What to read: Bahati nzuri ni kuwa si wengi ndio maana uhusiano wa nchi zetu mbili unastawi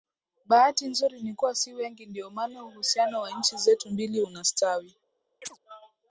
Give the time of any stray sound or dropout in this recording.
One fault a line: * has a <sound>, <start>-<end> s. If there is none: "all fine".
* has a chirp, 5.4-5.6 s